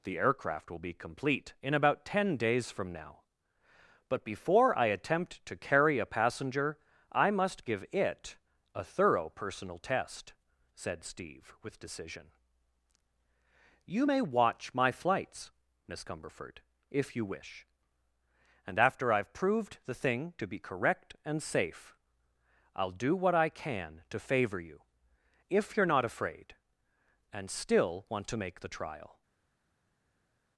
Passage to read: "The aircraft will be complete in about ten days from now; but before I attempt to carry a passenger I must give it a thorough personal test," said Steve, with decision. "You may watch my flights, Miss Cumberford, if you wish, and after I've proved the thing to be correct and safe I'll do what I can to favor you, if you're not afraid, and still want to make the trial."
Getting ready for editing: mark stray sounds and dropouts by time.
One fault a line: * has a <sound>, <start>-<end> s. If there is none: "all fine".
all fine